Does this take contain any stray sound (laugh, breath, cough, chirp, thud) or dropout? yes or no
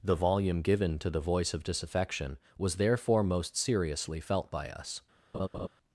yes